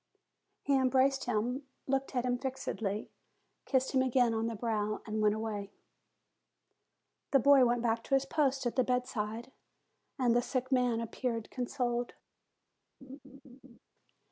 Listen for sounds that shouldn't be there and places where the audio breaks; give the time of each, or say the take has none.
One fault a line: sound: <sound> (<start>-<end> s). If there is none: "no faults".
sound: laugh (13.0-13.8 s)